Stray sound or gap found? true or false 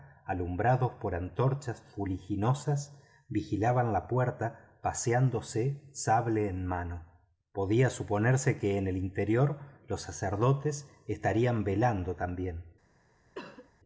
true